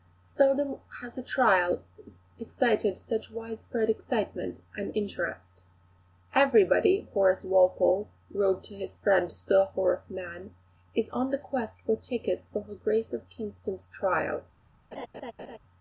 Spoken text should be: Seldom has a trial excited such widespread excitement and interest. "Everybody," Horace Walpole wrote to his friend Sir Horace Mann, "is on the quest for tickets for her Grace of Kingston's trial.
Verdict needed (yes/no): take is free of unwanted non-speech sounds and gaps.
no